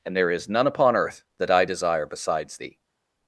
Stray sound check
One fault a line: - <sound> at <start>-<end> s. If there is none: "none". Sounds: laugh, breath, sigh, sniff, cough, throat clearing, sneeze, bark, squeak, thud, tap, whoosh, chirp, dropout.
none